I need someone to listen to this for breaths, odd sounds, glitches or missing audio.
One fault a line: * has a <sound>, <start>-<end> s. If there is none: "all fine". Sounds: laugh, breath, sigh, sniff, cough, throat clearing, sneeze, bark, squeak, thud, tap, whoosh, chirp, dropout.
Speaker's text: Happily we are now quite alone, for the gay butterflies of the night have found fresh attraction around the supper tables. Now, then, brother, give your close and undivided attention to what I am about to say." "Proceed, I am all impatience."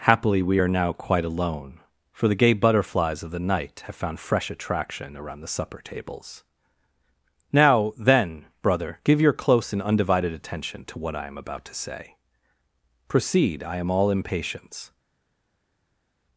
all fine